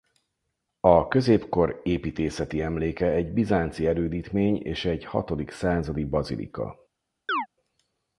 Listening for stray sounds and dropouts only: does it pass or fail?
fail